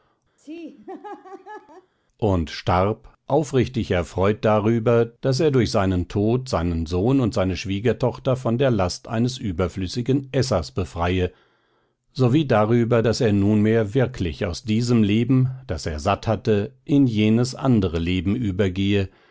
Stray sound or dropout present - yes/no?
yes